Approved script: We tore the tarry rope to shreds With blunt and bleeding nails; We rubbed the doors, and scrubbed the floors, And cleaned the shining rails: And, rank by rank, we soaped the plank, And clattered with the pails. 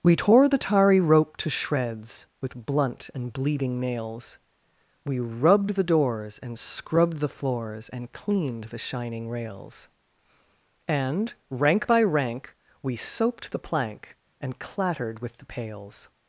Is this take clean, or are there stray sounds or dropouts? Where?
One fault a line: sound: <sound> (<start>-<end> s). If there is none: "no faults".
no faults